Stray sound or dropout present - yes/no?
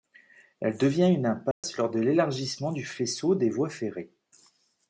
yes